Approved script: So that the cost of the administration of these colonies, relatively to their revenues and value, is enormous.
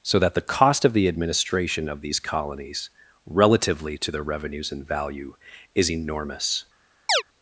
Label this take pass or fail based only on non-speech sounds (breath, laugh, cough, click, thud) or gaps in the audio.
fail